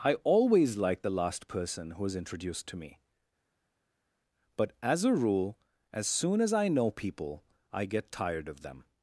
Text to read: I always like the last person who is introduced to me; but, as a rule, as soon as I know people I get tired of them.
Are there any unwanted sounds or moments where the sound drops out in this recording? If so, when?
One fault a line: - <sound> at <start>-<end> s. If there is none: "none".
none